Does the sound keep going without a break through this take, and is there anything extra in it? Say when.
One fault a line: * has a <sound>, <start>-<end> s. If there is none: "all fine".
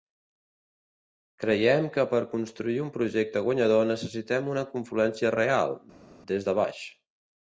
all fine